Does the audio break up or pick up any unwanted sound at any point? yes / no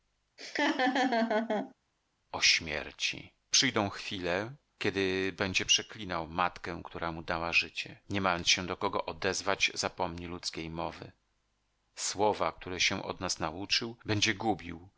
yes